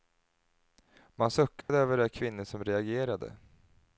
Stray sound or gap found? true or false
true